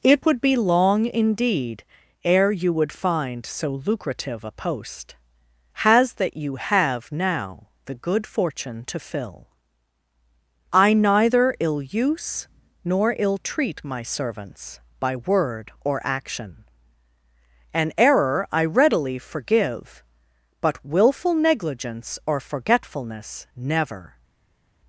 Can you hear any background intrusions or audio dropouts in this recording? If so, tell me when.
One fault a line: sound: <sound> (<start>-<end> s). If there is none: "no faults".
no faults